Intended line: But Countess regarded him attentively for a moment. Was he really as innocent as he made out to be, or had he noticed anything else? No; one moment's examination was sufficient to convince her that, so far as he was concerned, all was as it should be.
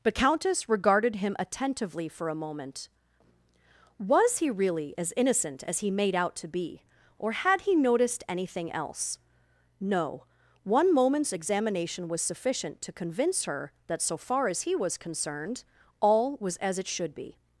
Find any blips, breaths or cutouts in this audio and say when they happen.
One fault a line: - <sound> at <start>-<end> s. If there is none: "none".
none